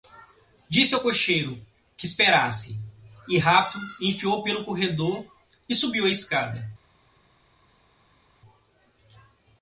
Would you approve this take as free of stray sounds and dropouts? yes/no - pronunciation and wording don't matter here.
yes